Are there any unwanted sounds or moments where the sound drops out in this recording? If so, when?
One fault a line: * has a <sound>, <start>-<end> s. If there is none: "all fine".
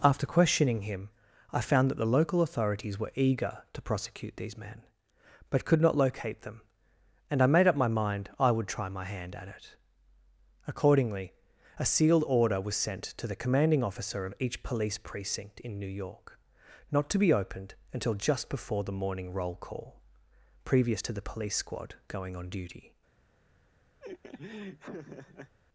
* has a laugh, 24.0-25.5 s